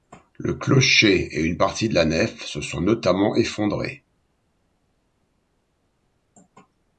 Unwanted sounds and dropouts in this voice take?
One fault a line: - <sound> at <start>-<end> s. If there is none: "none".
none